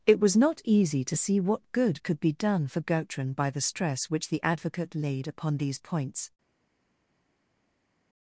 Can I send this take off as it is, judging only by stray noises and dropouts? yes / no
yes